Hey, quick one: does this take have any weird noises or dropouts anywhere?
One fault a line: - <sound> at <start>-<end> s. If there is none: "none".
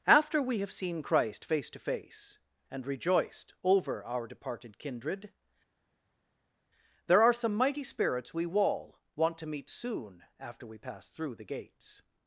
none